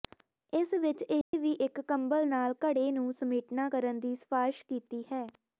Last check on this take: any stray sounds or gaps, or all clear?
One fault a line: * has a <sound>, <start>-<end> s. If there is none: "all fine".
* has a dropout, 1.2-1.3 s